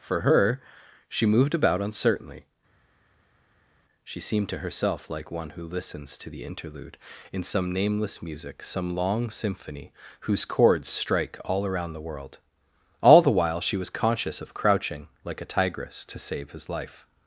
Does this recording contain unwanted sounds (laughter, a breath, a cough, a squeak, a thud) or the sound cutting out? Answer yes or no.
no